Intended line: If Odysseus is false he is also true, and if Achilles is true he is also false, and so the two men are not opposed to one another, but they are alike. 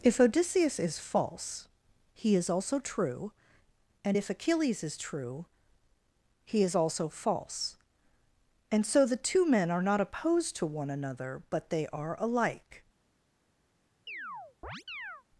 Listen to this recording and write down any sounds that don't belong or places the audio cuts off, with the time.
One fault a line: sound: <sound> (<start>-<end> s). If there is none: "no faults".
sound: chirp (14.1-15.2 s)